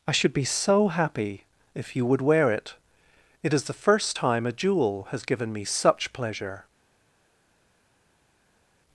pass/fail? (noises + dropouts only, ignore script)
pass